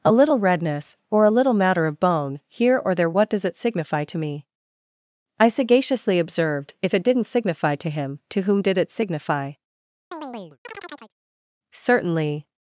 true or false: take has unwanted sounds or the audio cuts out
true